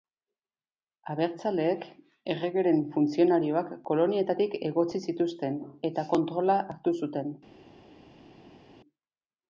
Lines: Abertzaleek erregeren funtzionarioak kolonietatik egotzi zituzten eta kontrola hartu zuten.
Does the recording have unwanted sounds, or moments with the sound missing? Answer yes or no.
no